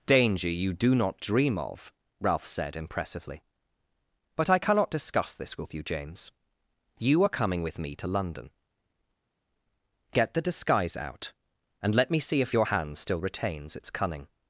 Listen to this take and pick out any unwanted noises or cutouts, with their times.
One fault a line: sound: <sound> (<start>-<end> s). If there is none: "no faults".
no faults